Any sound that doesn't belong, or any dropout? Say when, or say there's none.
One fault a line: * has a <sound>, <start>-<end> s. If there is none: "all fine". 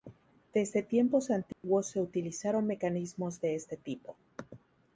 * has a dropout, 1.5-1.6 s